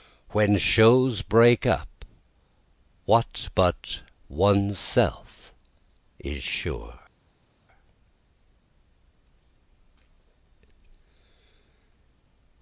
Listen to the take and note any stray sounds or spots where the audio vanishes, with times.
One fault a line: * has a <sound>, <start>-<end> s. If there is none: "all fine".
all fine